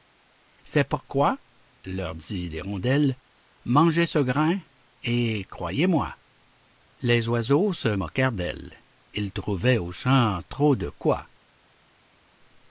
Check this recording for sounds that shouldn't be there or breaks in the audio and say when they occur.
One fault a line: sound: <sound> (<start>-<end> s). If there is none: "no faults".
no faults